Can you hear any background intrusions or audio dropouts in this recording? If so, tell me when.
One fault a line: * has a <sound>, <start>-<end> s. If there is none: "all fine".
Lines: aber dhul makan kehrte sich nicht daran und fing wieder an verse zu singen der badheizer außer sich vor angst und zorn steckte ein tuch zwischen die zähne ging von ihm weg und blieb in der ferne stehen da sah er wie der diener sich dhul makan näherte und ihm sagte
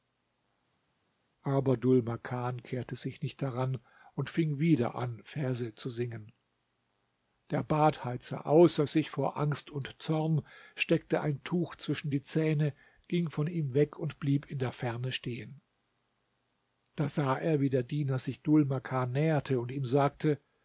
all fine